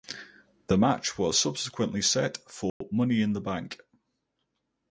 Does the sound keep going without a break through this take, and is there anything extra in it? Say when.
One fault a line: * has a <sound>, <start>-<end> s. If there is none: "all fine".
* has a dropout, 2.7-2.8 s